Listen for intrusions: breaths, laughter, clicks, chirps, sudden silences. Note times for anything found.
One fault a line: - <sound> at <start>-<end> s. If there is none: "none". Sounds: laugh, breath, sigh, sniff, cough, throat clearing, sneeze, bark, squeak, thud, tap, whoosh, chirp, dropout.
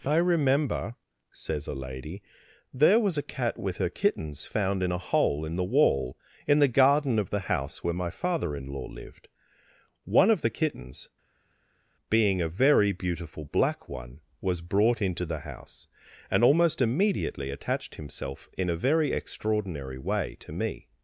none